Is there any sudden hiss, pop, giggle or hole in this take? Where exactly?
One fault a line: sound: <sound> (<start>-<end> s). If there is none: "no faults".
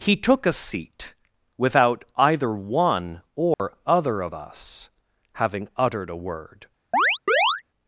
sound: dropout (3.5-3.6 s)
sound: chirp (6.9-7.6 s)